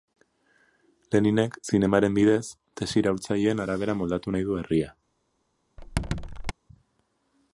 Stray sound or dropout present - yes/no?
yes